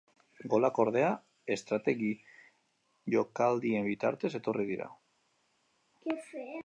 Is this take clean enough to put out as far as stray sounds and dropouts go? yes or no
yes